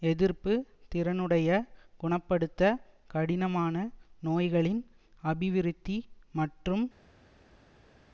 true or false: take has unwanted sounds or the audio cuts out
false